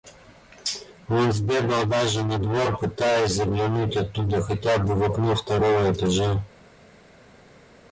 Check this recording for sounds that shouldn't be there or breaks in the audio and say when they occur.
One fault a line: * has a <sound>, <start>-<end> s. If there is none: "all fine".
all fine